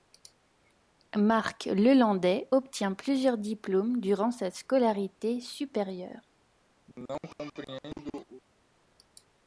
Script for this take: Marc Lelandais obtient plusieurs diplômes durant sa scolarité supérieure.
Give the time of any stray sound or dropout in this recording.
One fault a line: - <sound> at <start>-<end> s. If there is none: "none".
- cough at 6.9-8.4 s